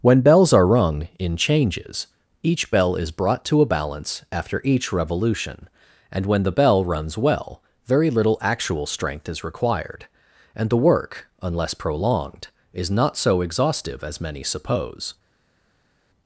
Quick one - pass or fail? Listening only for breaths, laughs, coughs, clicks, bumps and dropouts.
pass